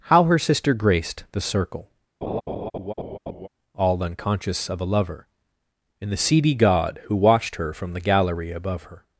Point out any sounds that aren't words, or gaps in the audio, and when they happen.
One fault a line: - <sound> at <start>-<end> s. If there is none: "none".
- laugh at 2.2-3.5 s